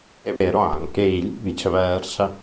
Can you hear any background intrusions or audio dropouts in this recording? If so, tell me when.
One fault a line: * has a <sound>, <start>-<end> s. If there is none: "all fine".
* has a dropout, 0.4-0.4 s